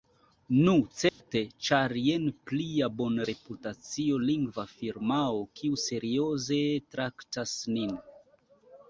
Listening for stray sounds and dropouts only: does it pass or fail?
fail